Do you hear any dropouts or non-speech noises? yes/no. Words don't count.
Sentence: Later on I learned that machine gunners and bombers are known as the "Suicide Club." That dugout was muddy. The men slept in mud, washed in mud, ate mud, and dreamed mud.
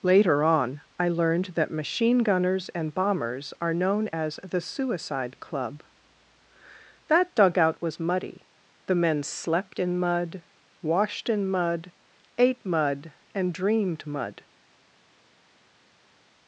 no